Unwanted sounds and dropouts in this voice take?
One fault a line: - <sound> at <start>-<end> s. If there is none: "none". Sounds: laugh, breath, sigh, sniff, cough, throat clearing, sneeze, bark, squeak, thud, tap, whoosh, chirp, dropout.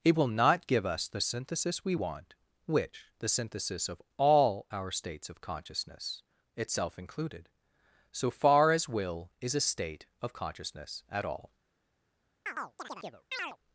- chirp at 12.5-13.6 s